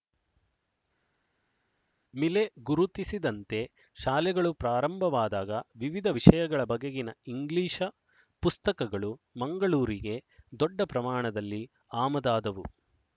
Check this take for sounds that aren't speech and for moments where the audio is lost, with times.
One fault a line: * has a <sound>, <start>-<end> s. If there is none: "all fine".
all fine